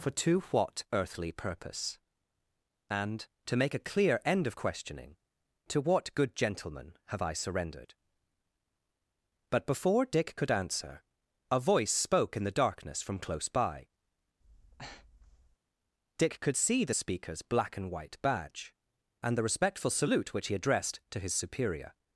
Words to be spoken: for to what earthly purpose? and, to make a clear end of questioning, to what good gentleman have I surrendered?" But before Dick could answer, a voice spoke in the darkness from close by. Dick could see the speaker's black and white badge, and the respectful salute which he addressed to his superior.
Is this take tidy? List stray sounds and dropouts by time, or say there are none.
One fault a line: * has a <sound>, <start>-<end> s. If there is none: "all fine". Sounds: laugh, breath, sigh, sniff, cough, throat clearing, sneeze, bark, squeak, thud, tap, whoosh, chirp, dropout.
* has a breath, 14.4-15.6 s